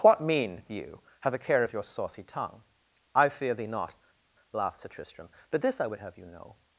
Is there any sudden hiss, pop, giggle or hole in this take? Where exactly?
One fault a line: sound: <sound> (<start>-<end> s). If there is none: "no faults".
no faults